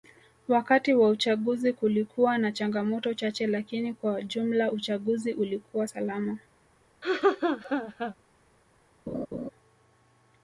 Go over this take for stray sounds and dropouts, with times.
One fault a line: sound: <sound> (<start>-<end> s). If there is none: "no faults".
sound: laugh (7.0-8.1 s)
sound: laugh (9.1-9.5 s)